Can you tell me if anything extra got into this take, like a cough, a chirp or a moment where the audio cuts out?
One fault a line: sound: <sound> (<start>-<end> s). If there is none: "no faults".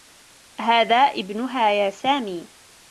no faults